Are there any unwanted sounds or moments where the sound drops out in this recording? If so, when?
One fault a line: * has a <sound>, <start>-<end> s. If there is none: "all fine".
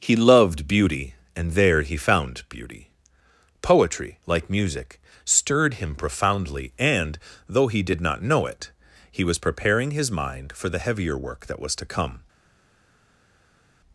all fine